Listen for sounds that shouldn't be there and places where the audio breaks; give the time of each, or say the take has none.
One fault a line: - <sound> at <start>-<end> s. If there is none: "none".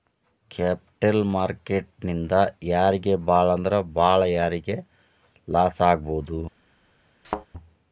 - thud at 7.2-7.5 s